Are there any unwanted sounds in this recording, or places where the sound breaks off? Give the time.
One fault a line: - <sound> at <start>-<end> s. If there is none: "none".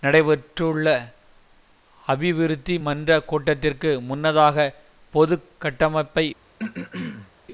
- throat clearing at 6.6-7.3 s